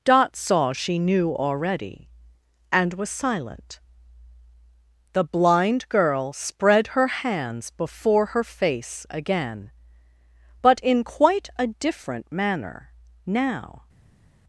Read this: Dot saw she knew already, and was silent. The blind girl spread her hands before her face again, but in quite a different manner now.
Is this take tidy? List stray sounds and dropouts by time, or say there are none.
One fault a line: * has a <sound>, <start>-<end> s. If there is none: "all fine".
all fine